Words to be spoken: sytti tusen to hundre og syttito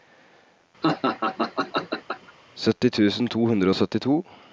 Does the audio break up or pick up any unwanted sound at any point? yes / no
yes